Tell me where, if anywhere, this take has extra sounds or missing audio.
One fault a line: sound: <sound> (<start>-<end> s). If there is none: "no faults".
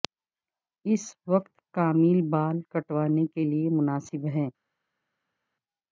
no faults